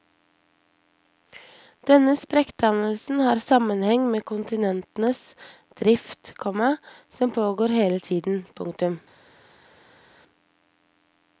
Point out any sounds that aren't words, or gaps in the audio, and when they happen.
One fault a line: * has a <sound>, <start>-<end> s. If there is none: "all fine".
all fine